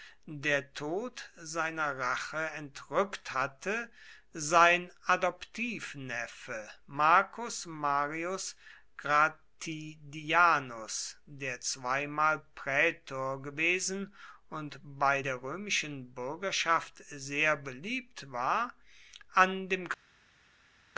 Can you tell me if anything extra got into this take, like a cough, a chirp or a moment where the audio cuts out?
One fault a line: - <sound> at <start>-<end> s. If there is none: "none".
none